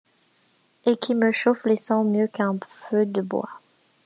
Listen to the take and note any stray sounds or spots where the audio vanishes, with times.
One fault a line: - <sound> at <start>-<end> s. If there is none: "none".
none